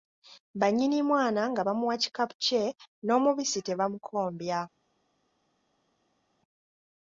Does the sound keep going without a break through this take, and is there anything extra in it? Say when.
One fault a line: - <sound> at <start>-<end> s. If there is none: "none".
none